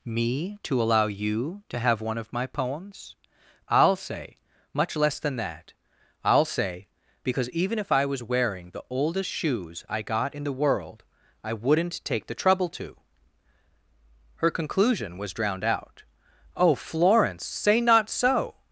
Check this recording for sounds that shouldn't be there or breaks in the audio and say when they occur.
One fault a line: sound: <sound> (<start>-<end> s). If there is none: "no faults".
no faults